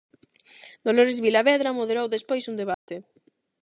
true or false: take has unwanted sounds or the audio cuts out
true